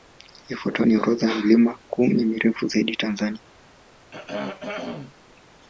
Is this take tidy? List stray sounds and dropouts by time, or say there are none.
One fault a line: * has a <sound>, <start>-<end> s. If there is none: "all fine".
* has a throat clearing, 4.1-5.1 s